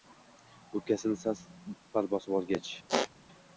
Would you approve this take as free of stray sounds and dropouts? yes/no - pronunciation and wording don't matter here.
no